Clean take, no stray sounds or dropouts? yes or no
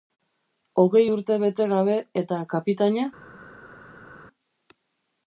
yes